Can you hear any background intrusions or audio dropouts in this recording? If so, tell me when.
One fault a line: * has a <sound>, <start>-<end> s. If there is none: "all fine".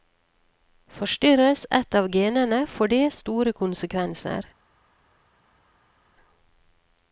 all fine